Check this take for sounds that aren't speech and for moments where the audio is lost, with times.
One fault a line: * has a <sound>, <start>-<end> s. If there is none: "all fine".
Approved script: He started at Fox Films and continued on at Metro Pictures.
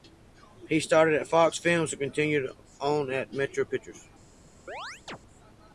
* has a chirp, 4.7-5.2 s